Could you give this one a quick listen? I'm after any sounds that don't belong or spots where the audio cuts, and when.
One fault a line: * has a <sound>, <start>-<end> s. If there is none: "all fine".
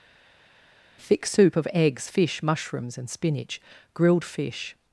all fine